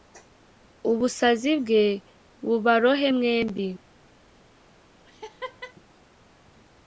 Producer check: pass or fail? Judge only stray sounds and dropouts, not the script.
fail